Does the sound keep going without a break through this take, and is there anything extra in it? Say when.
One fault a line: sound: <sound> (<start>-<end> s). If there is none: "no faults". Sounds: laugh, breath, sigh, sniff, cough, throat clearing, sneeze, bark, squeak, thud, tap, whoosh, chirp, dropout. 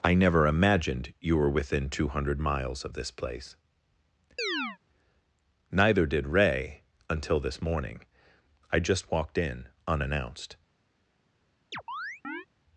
sound: chirp (4.4-4.8 s)
sound: chirp (11.7-12.5 s)